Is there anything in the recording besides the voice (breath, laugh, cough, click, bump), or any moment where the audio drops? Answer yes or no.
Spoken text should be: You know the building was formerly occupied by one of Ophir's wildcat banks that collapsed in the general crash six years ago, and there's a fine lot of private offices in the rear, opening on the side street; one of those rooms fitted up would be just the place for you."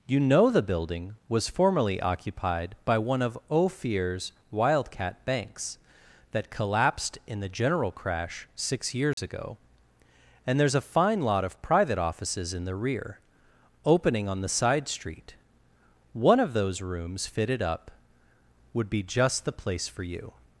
yes